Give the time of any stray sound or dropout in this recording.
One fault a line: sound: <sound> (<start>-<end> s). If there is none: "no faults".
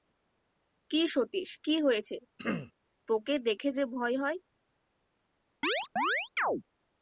sound: throat clearing (2.4-2.7 s)
sound: chirp (5.6-6.6 s)